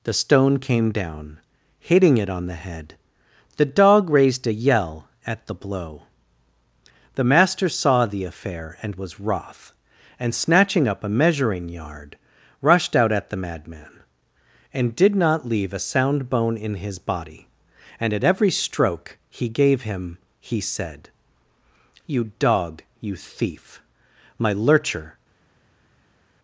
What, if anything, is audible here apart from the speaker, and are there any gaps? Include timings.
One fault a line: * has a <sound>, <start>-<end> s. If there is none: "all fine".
all fine